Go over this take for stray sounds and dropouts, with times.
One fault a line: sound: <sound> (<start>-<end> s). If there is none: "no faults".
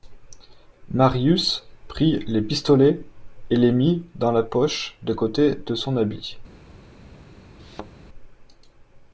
sound: thud (7.6-7.9 s)